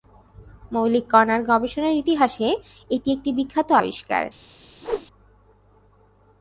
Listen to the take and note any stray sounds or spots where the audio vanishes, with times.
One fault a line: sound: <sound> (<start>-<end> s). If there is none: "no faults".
sound: whoosh (4.8-5.1 s)